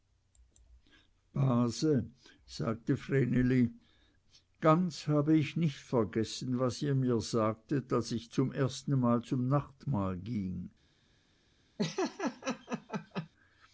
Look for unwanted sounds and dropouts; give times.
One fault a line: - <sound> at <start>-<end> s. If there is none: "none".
- laugh at 11.8-13.3 s